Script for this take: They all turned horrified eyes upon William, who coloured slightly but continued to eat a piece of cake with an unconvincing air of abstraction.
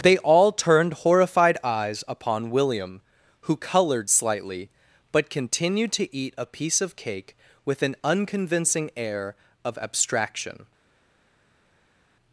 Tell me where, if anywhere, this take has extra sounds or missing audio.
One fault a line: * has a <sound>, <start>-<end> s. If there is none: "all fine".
all fine